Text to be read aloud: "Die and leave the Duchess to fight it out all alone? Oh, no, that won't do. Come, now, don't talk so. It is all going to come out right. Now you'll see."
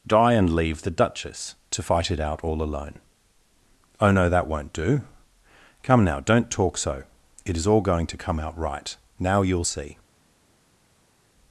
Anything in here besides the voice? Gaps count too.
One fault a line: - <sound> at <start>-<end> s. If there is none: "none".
none